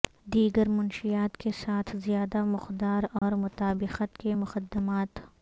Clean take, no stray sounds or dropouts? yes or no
no